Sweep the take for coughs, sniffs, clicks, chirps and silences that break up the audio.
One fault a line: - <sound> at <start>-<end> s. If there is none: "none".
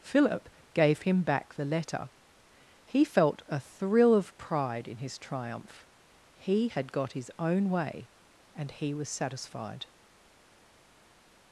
none